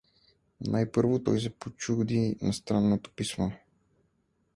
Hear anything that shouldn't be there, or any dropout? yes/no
no